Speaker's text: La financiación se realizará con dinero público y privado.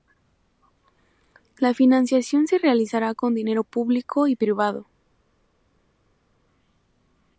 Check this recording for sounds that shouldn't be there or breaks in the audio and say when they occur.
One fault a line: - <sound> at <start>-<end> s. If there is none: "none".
none